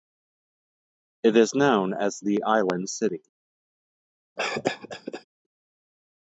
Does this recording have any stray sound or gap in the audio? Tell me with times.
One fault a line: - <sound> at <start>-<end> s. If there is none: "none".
- cough at 4.4-5.2 s